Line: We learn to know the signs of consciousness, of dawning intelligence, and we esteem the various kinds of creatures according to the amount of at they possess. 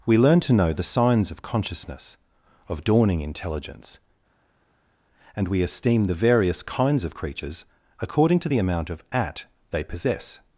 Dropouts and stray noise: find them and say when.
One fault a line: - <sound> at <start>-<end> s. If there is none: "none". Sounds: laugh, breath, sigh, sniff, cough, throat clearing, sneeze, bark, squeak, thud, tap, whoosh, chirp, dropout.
none